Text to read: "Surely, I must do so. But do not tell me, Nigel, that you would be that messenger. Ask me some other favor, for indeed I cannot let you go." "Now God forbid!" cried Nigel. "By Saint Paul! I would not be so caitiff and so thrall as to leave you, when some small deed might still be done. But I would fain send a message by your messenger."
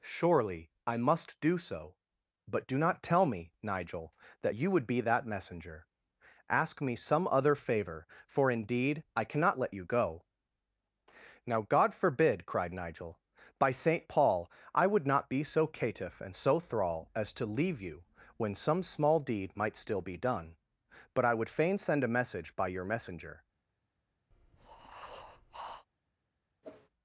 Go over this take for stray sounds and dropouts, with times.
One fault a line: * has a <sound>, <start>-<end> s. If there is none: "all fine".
* has a breath, 24.3-25.9 s
* has a whoosh, 26.6-26.9 s